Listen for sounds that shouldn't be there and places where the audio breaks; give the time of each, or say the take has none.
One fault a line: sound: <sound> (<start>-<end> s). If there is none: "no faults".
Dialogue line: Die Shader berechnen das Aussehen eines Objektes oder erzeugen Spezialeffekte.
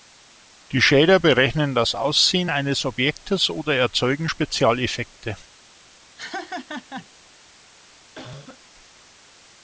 sound: laugh (6.2-7.1 s)
sound: cough (8.1-8.6 s)